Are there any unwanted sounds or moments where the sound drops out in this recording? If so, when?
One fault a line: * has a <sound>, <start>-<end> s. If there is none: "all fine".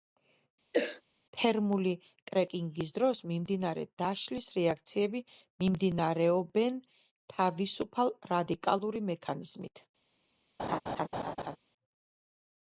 * has a cough, 0.7-1.0 s
* has a laugh, 10.6-11.6 s